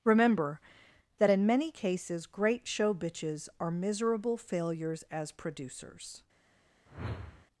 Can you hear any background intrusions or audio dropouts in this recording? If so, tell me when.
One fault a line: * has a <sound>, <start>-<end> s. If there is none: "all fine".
* has a whoosh, 6.9-7.5 s